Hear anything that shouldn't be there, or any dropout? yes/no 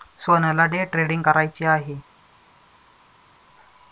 no